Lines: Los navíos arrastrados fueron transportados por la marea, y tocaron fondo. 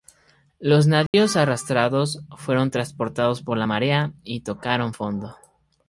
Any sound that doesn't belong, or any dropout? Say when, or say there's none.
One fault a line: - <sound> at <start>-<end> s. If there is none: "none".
- dropout at 1.1-1.1 s